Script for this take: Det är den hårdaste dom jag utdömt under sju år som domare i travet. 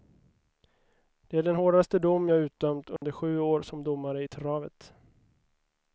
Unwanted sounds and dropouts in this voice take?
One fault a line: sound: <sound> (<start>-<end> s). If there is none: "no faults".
sound: dropout (3.0-3.0 s)